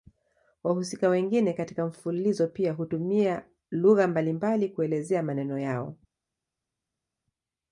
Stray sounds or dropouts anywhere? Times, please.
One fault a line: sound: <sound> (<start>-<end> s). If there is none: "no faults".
no faults